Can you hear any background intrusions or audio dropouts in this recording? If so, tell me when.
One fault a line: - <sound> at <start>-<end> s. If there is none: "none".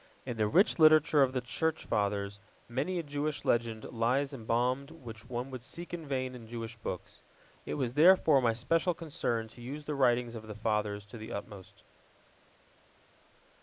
none